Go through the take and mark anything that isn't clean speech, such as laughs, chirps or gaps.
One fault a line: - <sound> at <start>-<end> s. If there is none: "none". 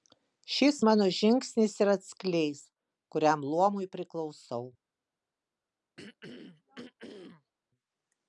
- throat clearing at 6.0-7.5 s